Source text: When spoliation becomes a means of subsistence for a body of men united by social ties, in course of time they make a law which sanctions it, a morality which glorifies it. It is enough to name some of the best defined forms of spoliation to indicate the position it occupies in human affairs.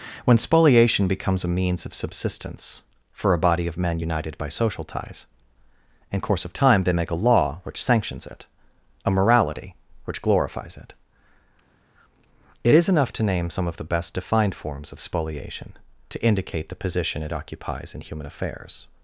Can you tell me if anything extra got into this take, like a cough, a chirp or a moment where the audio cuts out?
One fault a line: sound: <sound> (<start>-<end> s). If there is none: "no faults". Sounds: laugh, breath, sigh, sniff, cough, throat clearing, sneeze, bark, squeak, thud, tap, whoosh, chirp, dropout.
no faults